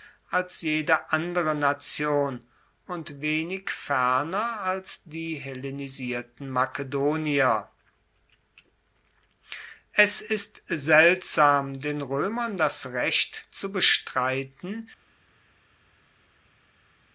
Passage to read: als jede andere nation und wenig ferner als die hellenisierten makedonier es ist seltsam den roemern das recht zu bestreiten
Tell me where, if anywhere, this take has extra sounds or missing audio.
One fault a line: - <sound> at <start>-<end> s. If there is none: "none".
none